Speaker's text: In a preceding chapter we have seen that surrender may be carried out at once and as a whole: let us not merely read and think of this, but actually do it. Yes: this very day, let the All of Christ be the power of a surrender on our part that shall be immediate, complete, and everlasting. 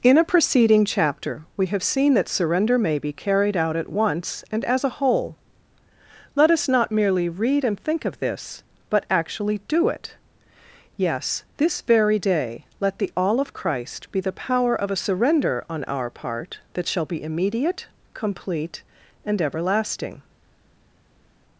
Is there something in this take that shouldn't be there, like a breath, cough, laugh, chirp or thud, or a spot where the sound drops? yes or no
no